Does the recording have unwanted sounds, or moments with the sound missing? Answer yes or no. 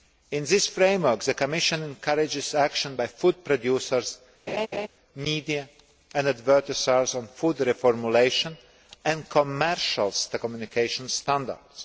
yes